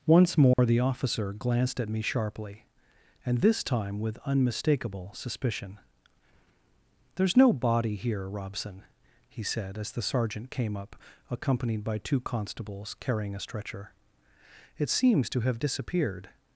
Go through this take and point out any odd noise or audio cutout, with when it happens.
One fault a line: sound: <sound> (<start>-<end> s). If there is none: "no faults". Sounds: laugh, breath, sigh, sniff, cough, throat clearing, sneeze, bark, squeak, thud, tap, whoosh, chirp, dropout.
sound: dropout (0.5-0.6 s)